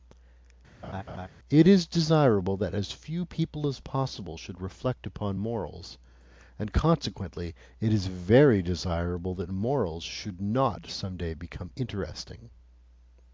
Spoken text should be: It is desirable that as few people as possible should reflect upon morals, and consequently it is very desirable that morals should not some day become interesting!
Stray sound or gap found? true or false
true